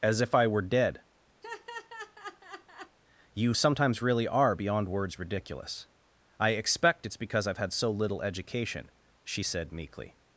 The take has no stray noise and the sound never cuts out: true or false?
false